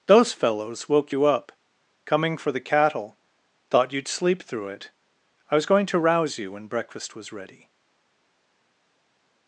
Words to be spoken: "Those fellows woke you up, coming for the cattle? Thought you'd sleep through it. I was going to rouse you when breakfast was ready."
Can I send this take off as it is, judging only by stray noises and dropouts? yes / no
yes